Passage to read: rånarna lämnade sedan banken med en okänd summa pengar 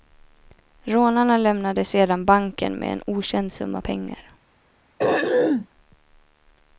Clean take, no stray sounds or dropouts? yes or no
no